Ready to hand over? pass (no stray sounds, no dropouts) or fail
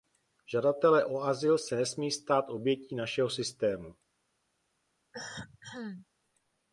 fail